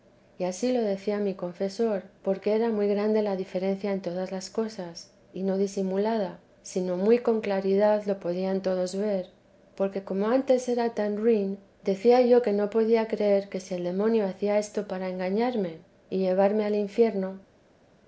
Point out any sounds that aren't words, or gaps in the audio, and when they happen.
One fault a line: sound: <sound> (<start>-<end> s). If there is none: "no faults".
no faults